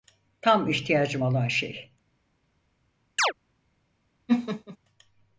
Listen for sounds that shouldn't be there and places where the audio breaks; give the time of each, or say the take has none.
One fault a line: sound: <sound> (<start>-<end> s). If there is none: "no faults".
sound: chirp (3.2-3.3 s)
sound: laugh (4.3-4.8 s)